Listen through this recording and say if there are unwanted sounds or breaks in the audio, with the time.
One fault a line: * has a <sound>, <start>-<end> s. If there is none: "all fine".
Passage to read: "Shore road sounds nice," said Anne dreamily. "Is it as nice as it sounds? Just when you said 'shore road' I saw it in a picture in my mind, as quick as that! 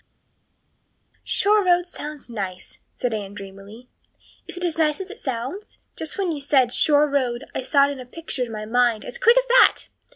all fine